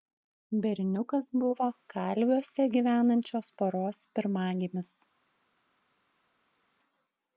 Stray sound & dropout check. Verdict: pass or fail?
pass